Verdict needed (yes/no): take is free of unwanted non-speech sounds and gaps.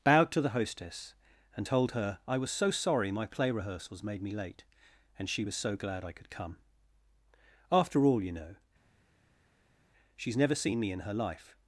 yes